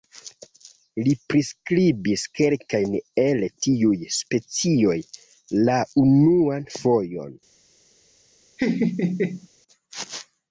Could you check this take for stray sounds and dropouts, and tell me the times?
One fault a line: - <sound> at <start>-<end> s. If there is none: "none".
- laugh at 8.6-9.5 s